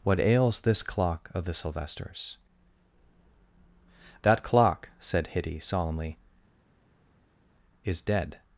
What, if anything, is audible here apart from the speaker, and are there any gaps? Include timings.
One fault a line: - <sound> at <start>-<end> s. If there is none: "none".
none